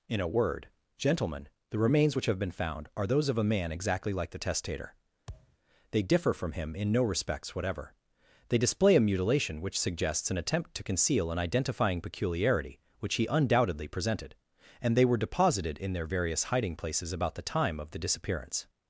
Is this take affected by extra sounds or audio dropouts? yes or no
yes